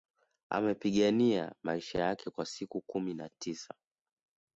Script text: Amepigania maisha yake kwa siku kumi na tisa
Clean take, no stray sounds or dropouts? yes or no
yes